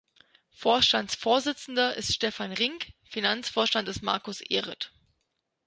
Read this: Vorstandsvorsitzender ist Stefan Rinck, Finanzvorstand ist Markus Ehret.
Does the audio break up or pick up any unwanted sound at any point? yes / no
no